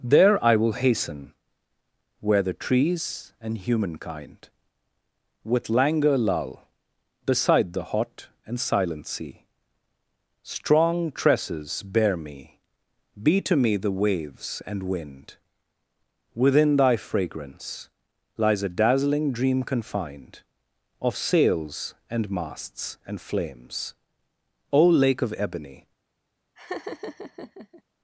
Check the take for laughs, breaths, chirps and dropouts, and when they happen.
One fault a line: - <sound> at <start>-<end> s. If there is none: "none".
- laugh at 26.6-27.8 s